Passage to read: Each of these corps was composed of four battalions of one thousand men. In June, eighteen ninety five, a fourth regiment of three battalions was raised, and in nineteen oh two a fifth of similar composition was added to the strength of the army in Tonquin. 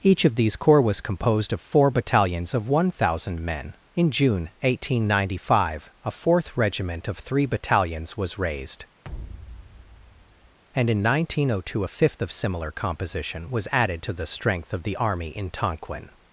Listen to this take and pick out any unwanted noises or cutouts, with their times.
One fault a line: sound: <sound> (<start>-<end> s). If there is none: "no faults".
sound: thud (9.0-10.6 s)